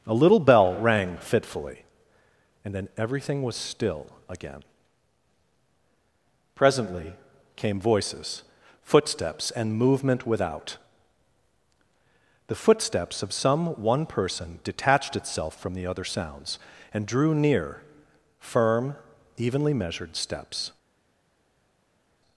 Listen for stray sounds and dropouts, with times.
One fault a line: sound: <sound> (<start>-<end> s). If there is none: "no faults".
no faults